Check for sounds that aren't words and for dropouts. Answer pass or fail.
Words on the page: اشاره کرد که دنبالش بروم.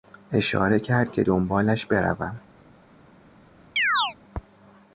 fail